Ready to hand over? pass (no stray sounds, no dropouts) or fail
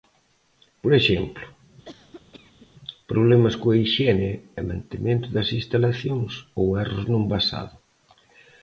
fail